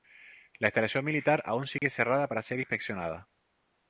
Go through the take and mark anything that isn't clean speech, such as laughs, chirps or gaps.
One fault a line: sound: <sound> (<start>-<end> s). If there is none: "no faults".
sound: dropout (1.8-1.8 s)